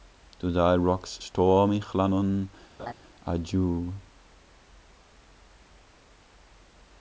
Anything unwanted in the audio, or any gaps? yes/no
yes